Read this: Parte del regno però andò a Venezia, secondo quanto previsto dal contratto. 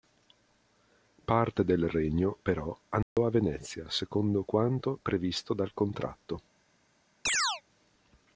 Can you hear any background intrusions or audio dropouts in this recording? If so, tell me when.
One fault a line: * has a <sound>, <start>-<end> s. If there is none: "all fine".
* has a dropout, 3.0-3.2 s
* has a chirp, 7.3-7.6 s